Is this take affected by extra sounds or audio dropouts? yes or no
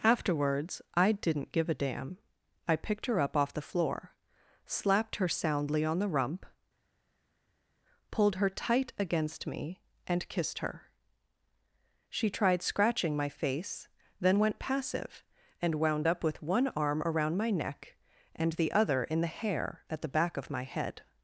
no